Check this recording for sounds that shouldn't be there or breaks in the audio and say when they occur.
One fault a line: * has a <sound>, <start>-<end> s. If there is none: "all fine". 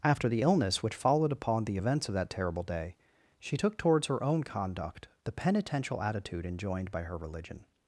all fine